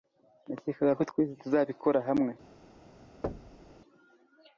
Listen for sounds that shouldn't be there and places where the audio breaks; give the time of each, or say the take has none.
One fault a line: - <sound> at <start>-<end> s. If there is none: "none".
- thud at 3.2-3.7 s